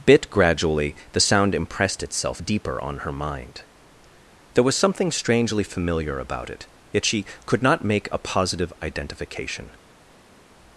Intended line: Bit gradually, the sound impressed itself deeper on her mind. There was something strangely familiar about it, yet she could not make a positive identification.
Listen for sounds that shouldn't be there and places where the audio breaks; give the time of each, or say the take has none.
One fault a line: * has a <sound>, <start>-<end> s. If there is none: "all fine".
all fine